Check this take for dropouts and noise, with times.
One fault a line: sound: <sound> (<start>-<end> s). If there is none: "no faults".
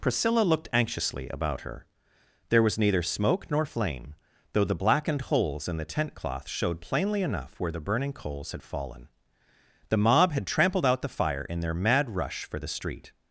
no faults